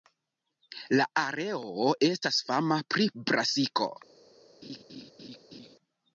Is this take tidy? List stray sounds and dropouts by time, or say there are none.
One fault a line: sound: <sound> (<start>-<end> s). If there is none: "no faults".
sound: laugh (4.6-5.8 s)